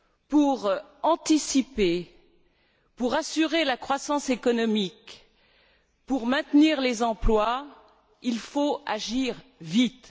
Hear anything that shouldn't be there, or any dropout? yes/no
no